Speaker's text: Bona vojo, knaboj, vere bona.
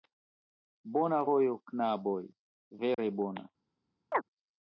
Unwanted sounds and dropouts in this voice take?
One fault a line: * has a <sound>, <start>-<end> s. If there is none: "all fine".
* has a dropout, 2.9-3.0 s
* has a chirp, 4.1-4.2 s